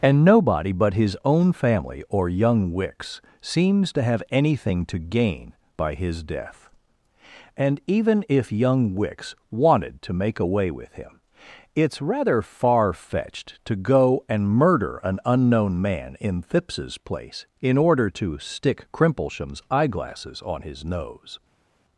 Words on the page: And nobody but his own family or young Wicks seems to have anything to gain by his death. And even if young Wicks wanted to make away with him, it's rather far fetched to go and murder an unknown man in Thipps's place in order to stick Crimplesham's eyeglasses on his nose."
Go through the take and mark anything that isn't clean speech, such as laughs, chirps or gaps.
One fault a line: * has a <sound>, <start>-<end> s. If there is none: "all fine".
all fine